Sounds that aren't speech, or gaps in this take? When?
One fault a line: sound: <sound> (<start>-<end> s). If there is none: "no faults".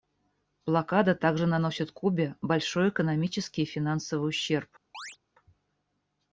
sound: chirp (4.9-5.2 s)